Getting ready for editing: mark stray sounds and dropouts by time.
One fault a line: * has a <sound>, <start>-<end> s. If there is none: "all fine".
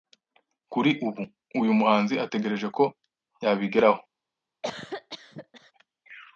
* has a cough, 4.6-5.7 s